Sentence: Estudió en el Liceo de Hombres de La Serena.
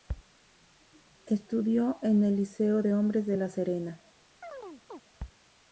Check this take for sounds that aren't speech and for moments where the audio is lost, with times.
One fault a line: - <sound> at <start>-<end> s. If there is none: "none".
- chirp at 4.4-5.0 s